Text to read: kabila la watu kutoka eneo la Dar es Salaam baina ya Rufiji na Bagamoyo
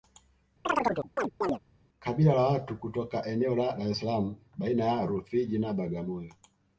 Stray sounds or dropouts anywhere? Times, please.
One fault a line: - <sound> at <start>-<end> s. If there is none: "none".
- chirp at 0.6-1.6 s